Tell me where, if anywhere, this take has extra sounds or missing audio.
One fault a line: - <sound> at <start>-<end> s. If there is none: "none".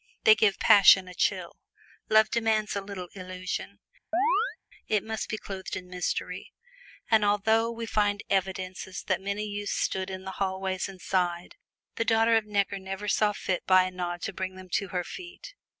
- chirp at 4.1-4.6 s